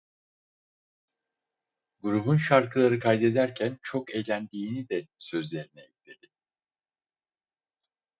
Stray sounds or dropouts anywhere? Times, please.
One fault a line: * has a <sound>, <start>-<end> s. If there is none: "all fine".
all fine